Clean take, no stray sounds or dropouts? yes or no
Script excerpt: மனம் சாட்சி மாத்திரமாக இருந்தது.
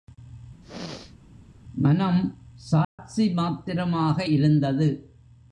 no